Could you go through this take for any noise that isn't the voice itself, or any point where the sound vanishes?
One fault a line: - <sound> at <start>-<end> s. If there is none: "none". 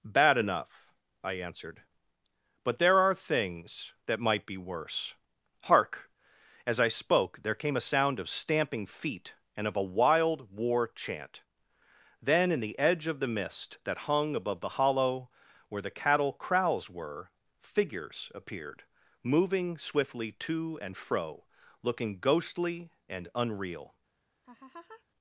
- laugh at 24.4-25.0 s